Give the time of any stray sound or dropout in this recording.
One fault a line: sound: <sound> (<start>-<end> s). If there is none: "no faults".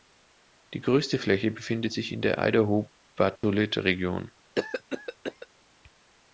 sound: dropout (3.4-3.4 s)
sound: cough (4.6-5.5 s)